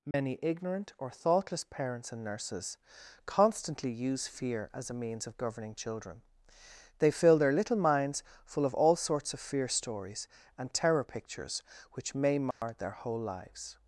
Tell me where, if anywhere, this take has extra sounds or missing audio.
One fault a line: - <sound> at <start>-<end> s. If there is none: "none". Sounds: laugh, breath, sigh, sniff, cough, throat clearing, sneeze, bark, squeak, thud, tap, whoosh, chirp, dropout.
- dropout at 0.1-0.1 s
- dropout at 12.5-12.6 s